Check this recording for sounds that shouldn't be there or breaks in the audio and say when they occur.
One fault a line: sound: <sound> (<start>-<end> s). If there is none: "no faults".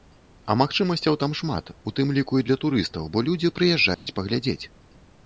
sound: dropout (3.9-4.1 s)